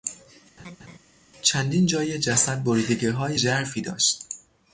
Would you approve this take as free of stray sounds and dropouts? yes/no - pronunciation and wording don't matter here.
no